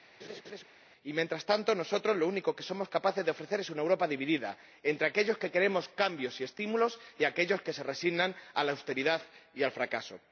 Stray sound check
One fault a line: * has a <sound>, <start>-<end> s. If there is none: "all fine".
* has a laugh, 0.2-0.6 s